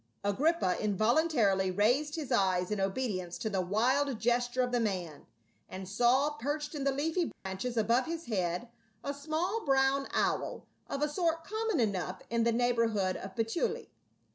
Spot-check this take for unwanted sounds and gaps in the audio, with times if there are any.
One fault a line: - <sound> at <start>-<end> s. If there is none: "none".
- dropout at 7.3-7.5 s